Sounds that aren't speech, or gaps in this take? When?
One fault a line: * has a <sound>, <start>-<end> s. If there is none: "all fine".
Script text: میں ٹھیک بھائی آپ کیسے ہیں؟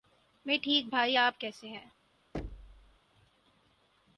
* has a thud, 2.3-3.0 s